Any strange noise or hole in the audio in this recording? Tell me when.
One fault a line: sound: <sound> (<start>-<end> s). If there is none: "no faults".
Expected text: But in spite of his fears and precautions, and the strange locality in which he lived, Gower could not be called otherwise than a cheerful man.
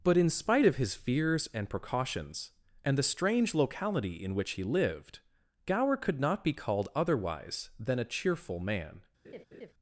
sound: laugh (9.2-9.7 s)